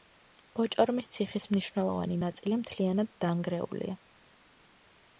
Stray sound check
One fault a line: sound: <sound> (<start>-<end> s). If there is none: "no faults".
no faults